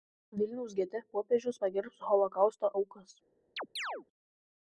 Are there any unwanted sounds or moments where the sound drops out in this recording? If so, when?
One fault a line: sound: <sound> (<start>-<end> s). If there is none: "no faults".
sound: chirp (3.6-4.1 s)